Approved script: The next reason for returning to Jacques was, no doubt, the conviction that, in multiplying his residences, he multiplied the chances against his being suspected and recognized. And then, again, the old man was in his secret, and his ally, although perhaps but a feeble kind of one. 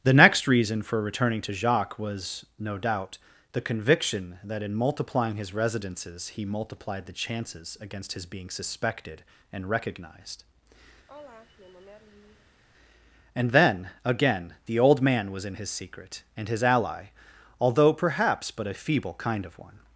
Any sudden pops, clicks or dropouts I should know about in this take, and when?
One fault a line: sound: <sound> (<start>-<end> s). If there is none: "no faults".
sound: sigh (11.1-12.6 s)